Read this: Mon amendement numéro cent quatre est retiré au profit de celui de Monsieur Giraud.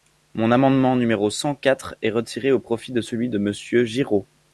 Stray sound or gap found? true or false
false